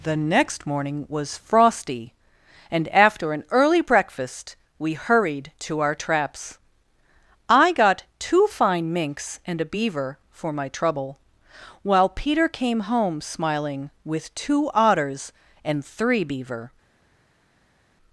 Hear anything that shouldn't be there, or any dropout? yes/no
no